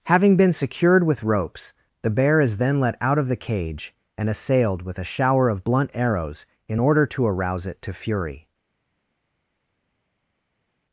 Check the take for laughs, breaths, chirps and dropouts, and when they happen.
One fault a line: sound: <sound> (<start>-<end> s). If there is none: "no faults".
no faults